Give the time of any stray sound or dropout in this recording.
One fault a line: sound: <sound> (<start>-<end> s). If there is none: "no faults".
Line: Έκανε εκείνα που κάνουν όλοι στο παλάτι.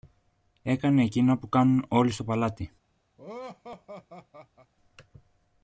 sound: laugh (3.2-4.7 s)